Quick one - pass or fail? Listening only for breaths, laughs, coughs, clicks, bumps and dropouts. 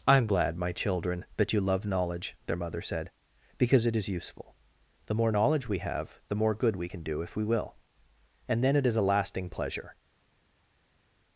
pass